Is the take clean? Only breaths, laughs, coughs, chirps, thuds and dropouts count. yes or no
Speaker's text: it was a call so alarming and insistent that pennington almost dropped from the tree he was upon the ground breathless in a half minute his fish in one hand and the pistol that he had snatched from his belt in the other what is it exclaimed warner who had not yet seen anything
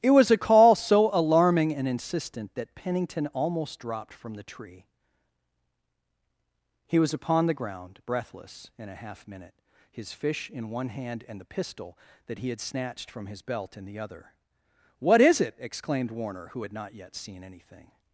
yes